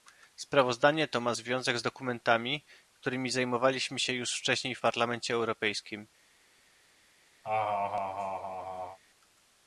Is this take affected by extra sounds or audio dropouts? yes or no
yes